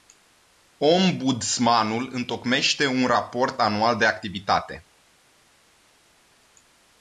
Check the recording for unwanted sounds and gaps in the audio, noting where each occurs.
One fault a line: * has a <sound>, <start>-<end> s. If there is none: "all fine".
all fine